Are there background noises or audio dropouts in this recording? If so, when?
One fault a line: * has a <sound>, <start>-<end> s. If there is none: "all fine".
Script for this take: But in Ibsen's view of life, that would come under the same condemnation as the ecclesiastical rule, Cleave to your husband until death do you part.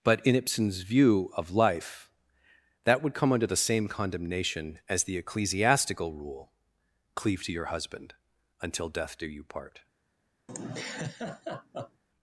* has a laugh, 10.5-12.0 s